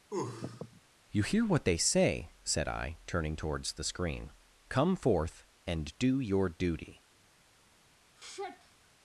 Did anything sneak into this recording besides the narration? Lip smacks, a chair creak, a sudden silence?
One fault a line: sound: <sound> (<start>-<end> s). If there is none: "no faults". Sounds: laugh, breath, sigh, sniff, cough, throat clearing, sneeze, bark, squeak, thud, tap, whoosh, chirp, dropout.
sound: sneeze (0.1-0.8 s)
sound: sigh (8.2-8.9 s)